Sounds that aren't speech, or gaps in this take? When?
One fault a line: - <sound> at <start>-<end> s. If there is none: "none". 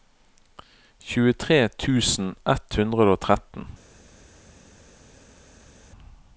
none